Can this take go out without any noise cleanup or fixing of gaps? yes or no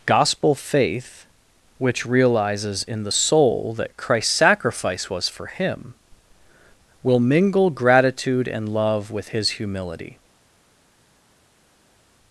yes